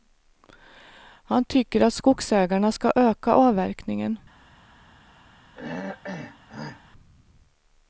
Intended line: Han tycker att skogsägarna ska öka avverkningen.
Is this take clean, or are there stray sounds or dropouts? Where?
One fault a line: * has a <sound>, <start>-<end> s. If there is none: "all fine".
* has a throat clearing, 5.5-6.8 s